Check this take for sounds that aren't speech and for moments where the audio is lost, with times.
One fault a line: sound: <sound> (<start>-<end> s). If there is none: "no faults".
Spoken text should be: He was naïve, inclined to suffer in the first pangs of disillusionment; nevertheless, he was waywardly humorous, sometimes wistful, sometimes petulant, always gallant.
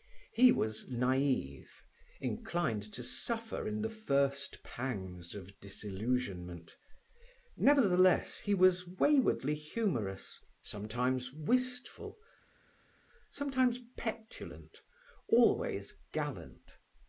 no faults